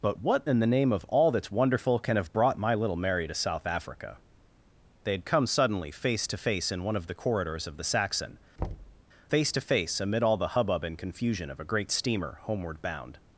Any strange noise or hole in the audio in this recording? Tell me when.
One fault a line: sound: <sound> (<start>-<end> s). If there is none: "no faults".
sound: thud (8.6-9.0 s)